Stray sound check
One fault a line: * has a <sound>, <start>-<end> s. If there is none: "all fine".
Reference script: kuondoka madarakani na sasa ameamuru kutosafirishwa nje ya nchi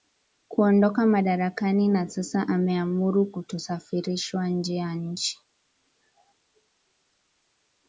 all fine